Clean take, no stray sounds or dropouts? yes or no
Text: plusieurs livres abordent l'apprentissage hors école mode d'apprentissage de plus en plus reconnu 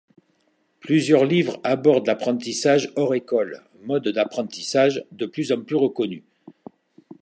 yes